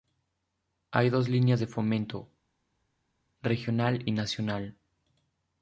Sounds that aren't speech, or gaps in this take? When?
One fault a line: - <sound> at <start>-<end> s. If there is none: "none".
none